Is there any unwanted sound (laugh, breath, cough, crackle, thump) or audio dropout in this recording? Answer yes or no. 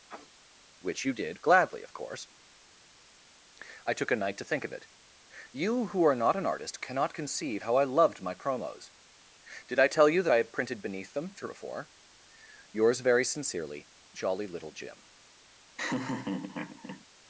yes